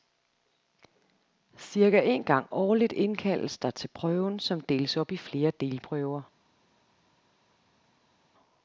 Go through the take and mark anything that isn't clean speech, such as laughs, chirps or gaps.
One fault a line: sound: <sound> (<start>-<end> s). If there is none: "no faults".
no faults